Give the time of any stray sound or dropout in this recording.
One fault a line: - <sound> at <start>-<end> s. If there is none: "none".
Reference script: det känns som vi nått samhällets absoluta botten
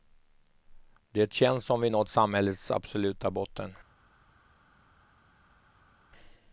none